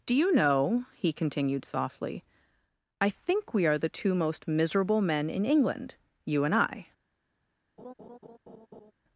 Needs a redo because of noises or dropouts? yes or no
yes